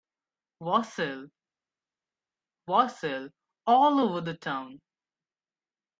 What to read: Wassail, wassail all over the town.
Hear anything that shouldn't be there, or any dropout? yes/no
no